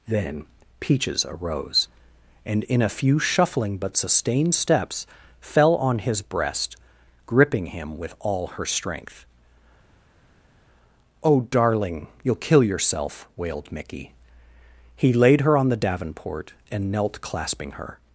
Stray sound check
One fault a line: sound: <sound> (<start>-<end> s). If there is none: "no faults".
no faults